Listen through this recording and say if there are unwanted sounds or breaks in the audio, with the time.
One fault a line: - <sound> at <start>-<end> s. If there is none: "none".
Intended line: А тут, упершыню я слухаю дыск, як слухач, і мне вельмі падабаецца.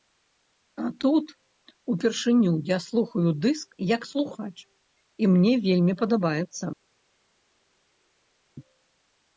none